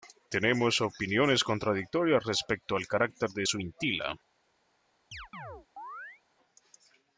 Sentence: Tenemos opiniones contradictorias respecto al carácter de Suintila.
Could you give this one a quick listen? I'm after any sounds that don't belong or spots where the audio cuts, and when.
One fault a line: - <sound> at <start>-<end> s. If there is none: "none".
- chirp at 5.1-6.2 s